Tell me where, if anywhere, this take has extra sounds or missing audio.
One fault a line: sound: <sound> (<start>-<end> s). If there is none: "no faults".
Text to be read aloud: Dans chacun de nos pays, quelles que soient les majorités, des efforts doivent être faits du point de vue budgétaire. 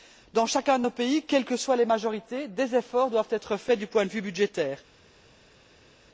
no faults